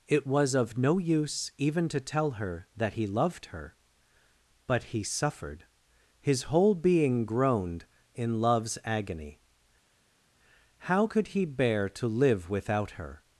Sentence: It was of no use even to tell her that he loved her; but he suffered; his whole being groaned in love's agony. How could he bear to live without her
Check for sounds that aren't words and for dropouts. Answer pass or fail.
pass